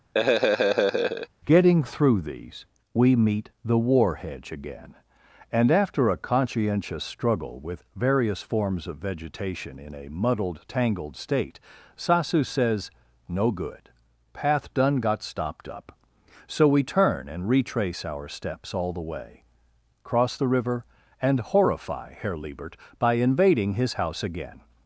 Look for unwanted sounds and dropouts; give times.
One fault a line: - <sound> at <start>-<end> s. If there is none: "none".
- laugh at 0.1-1.3 s